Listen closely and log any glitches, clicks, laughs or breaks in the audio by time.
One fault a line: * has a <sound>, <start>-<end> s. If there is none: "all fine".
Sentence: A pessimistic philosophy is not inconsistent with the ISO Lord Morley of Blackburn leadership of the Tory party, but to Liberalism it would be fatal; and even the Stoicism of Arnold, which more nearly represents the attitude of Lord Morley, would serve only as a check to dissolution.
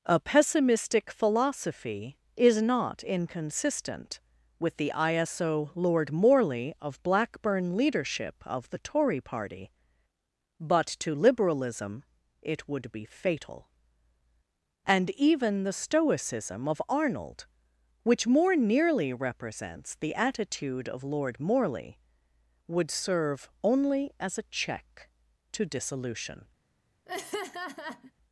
* has a laugh, 27.1-28.1 s